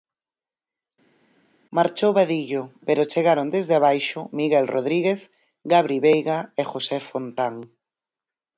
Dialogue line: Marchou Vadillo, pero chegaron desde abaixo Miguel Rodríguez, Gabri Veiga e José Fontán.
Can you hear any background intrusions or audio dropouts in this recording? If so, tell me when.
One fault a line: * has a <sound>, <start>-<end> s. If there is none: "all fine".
all fine